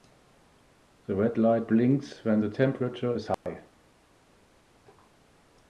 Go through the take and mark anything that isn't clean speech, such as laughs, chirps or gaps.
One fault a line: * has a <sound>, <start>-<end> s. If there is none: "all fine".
* has a dropout, 3.3-3.5 s